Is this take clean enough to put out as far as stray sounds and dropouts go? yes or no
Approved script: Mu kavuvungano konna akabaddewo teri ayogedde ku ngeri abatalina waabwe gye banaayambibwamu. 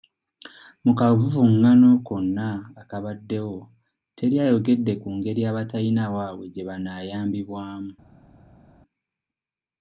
yes